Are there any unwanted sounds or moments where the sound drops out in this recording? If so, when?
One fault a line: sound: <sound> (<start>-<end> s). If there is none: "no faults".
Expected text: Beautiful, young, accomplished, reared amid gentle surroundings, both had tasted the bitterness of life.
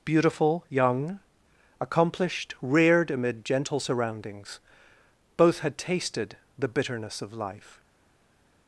no faults